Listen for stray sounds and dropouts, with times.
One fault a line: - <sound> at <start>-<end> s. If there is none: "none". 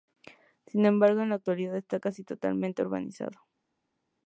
none